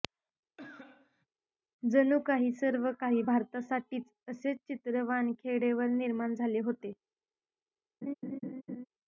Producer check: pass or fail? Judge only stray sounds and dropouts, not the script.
fail